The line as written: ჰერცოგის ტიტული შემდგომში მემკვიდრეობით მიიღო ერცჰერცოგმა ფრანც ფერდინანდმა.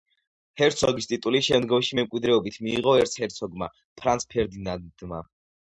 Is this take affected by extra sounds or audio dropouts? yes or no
no